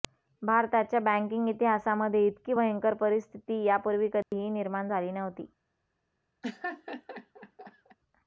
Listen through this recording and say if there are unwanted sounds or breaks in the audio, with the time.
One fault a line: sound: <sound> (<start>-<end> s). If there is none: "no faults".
sound: dropout (4.2-4.3 s)
sound: laugh (6.4-8.0 s)